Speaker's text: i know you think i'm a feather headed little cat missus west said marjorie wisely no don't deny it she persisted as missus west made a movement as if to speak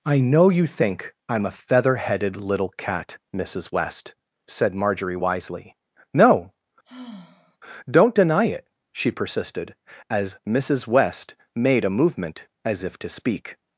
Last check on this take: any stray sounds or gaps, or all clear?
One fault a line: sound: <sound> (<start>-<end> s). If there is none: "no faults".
sound: sigh (6.8-7.6 s)